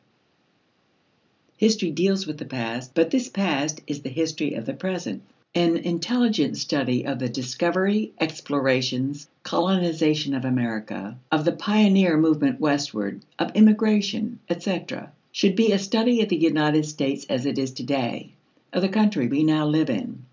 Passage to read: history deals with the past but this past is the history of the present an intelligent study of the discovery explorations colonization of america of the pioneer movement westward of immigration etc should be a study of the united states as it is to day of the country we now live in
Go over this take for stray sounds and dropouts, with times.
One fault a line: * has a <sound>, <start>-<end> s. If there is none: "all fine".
all fine